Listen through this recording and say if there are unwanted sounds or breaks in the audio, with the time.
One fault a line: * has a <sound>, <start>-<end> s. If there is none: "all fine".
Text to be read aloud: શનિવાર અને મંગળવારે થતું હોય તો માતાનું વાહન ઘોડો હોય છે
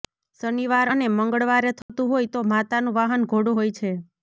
* has a dropout, 1.8-1.9 s